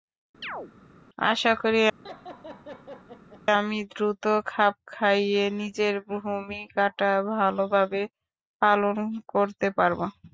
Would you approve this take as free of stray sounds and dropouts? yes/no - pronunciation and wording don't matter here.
no